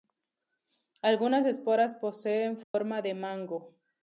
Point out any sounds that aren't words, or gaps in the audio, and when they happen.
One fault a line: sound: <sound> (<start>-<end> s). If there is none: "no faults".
sound: dropout (2.6-2.7 s)